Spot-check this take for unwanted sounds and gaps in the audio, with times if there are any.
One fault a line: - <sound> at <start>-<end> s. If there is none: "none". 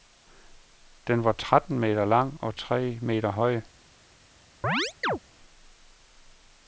- chirp at 4.6-5.2 s